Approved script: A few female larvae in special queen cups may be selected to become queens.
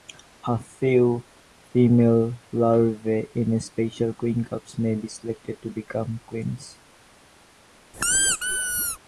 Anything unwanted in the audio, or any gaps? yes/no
yes